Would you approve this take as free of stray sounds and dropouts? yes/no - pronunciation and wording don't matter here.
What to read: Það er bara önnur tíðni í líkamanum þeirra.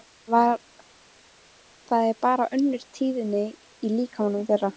yes